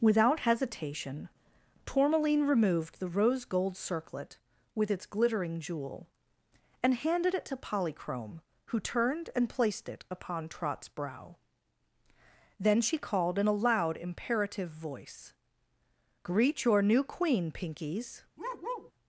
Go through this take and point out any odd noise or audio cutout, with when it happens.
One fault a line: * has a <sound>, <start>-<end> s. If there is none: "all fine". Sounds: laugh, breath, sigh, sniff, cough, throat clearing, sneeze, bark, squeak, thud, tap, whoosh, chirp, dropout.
* has a bark, 18.4-18.9 s